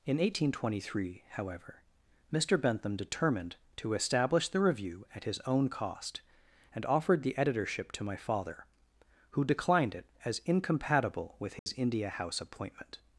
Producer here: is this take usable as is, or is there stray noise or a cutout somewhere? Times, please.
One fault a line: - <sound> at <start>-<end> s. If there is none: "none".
- dropout at 11.6-11.7 s